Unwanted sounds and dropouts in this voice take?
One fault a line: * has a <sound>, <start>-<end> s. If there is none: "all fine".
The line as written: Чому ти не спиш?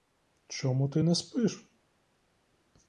all fine